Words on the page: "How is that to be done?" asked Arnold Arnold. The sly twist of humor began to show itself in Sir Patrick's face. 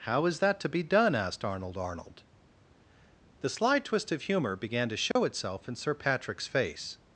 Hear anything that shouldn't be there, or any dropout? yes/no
yes